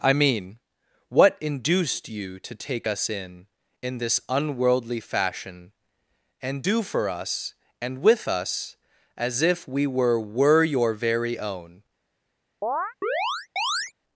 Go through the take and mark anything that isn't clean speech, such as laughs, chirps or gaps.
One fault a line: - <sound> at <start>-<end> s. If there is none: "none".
- chirp at 12.6-13.9 s